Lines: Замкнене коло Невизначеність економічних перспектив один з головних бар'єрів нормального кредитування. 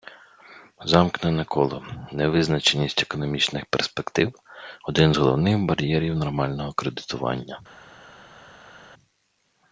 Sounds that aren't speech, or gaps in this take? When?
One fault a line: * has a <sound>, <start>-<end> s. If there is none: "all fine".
all fine